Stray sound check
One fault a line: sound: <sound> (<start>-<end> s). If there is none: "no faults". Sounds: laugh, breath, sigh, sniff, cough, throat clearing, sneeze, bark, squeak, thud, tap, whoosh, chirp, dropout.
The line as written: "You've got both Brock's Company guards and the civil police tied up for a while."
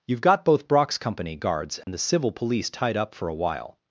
sound: dropout (1.8-1.9 s)